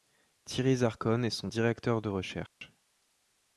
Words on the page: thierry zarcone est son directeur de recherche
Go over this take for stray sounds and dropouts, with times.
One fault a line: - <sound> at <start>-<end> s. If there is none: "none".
- dropout at 2.5-2.6 s